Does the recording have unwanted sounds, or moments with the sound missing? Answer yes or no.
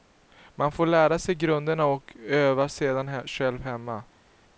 no